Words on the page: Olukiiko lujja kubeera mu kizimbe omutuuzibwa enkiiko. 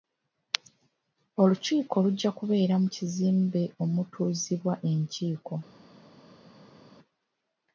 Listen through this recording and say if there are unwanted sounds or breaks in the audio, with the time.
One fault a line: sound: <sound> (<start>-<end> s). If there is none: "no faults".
no faults